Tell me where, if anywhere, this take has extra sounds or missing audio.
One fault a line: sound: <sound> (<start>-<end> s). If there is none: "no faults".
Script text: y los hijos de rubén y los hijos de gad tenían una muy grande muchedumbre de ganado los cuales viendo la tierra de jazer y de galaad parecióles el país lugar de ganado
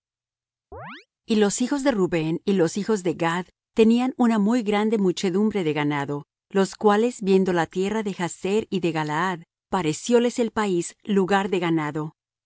sound: chirp (0.7-1.1 s)